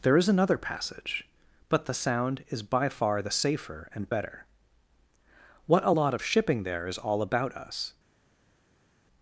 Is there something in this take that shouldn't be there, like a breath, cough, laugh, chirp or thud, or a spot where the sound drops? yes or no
no